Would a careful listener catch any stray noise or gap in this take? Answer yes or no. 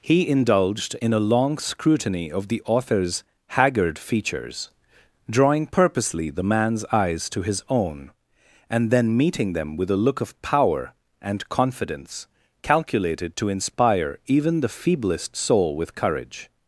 no